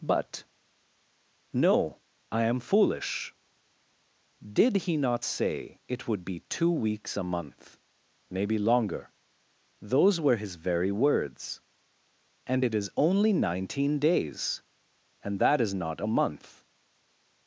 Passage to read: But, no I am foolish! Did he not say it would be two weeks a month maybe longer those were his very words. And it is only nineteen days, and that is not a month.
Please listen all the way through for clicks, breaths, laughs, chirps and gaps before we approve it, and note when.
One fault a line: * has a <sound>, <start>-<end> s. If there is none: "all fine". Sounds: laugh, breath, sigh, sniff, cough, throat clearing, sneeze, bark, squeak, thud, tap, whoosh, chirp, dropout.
all fine